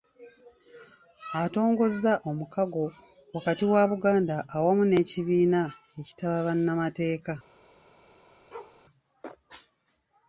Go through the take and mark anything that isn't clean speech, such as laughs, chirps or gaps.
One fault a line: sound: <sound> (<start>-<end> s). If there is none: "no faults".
sound: bark (8.5-8.8 s)